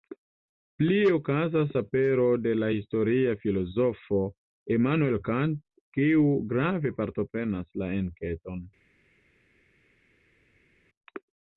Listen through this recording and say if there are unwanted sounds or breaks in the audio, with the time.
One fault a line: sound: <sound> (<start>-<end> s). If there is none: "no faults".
no faults